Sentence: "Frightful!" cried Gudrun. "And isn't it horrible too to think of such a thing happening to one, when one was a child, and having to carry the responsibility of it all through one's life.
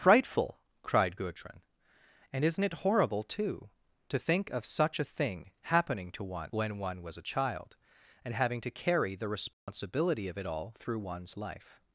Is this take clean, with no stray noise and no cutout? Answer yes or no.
no